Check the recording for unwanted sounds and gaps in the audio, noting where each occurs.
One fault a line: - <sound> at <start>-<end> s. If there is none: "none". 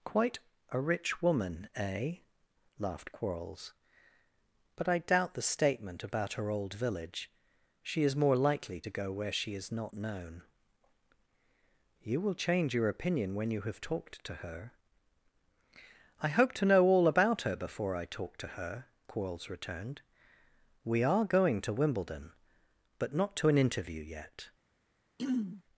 - throat clearing at 25.2-25.6 s